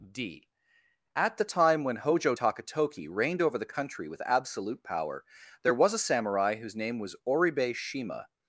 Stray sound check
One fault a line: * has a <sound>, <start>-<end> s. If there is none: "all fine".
all fine